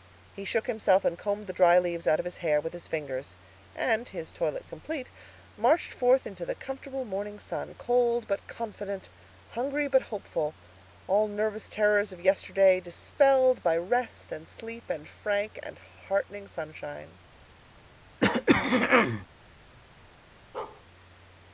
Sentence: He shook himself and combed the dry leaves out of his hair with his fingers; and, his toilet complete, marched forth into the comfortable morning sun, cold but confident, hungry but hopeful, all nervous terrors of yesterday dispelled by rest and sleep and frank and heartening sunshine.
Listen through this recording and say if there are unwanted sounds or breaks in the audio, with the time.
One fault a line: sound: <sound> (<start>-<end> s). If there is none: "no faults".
sound: throat clearing (18.2-19.3 s)
sound: bark (20.5-20.8 s)